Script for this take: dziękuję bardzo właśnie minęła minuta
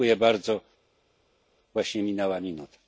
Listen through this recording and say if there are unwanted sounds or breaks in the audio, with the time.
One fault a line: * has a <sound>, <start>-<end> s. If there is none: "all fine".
all fine